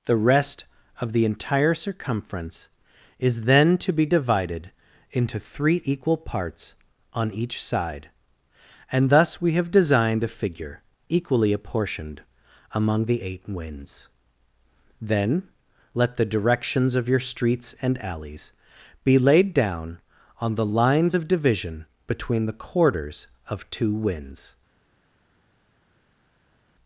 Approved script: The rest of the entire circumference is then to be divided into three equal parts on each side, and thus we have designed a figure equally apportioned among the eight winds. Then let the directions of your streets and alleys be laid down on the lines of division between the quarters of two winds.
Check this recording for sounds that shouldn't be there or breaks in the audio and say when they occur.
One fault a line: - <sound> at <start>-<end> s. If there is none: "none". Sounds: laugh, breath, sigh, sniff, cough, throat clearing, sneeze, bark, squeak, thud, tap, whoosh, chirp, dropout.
none